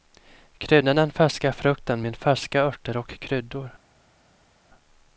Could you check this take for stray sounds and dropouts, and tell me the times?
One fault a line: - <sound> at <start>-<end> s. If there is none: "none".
none